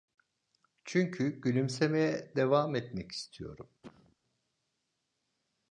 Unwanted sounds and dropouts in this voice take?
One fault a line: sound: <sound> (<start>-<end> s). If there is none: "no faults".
sound: cough (3.8-4.2 s)